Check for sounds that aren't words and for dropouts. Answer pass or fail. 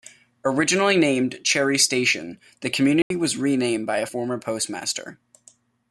fail